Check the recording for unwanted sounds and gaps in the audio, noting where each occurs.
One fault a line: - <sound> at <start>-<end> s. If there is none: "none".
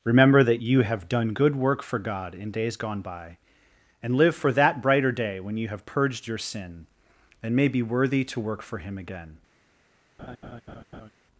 - laugh at 10.2-11.1 s